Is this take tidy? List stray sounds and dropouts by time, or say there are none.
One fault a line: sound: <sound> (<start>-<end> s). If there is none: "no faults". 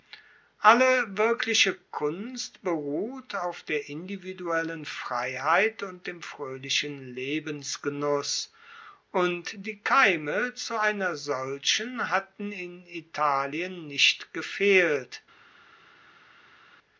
no faults